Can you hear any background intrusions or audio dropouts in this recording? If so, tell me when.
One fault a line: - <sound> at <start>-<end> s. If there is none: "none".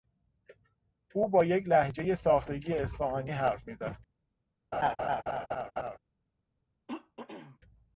- laugh at 4.7-6.0 s
- throat clearing at 6.9-7.6 s